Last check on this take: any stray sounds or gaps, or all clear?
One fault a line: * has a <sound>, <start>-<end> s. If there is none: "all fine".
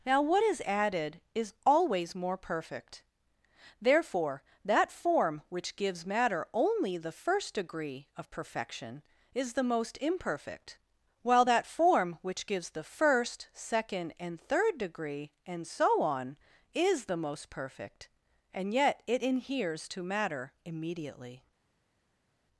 all fine